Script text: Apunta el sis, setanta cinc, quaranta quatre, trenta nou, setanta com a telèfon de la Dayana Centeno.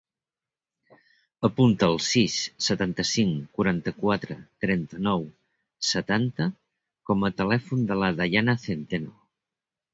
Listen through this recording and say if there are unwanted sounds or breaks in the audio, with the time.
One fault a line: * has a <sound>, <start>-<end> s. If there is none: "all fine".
all fine